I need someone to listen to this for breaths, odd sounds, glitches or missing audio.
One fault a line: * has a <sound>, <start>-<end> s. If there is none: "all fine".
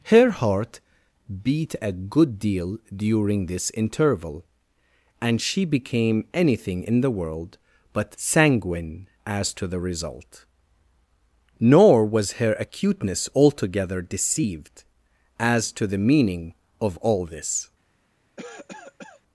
* has a cough, 18.4-19.2 s